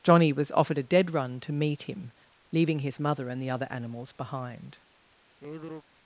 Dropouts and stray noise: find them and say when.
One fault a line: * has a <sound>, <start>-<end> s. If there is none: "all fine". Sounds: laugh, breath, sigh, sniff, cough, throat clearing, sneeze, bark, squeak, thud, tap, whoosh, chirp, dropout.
* has a sigh, 5.4-5.8 s